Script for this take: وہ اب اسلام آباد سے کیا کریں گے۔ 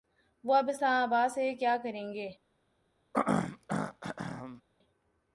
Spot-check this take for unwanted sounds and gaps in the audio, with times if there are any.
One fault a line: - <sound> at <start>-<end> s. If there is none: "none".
- throat clearing at 3.1-4.6 s